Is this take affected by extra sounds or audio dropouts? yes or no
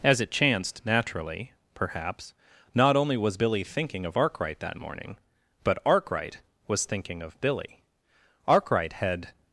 no